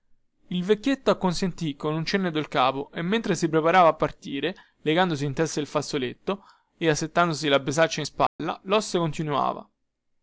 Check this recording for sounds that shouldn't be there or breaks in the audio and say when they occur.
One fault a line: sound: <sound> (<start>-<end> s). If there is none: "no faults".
sound: dropout (8.3-8.4 s)